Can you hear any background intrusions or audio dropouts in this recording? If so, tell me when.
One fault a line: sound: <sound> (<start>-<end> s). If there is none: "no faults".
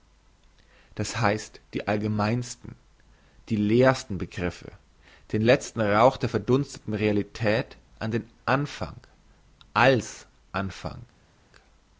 no faults